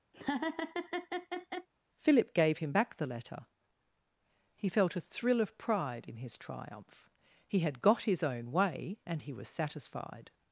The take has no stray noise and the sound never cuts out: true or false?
false